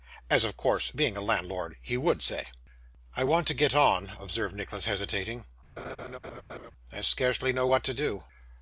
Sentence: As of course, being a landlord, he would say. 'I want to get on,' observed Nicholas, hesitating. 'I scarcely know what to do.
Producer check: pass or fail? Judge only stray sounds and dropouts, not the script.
fail